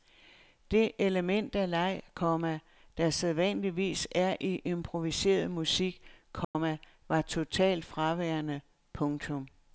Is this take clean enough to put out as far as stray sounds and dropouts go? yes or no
no